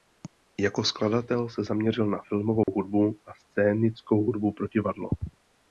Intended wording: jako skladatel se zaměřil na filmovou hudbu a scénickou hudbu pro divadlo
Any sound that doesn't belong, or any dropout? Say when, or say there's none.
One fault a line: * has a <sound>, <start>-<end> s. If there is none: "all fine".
* has a dropout, 2.6-2.7 s